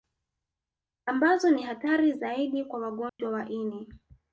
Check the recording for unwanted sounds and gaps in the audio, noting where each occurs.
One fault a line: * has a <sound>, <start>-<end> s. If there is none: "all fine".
* has a dropout, 3.1-3.2 s